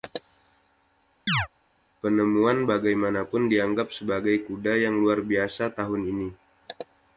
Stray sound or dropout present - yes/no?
yes